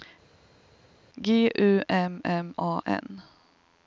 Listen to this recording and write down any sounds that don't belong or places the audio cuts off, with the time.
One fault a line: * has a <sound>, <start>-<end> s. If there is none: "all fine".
all fine